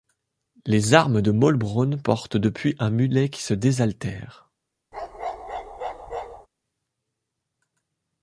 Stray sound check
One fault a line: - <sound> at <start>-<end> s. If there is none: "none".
- bark at 4.9-6.5 s